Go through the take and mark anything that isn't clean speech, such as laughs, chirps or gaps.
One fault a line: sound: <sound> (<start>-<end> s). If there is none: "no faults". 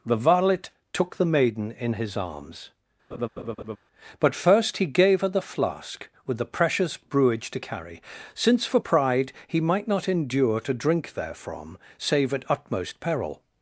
sound: laugh (3.1-3.8 s)